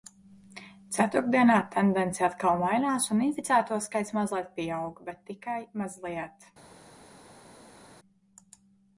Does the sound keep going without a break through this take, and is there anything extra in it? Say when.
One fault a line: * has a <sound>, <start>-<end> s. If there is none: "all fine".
all fine